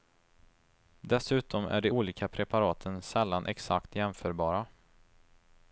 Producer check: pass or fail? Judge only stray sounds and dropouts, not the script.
pass